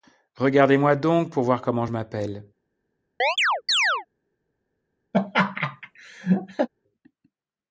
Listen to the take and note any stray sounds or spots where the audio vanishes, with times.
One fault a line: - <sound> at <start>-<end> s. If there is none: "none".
- chirp at 3.2-4.1 s
- laugh at 5.1-6.7 s